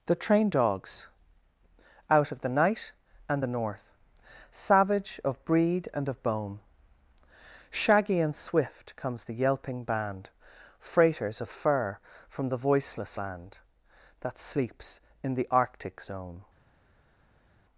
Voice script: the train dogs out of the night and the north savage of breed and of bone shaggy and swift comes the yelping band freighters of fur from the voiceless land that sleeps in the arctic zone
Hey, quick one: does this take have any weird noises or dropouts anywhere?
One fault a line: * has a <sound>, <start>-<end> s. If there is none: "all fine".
all fine